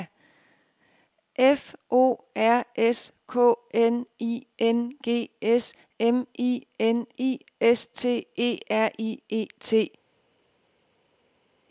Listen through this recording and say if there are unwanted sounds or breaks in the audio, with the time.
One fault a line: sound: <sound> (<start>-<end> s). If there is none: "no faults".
no faults